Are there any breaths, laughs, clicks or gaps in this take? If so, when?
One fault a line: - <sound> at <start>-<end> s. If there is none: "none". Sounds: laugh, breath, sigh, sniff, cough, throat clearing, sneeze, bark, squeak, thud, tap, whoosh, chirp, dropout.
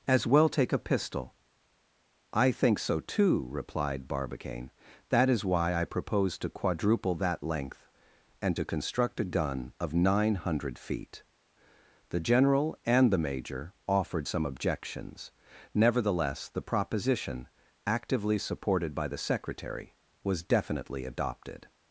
none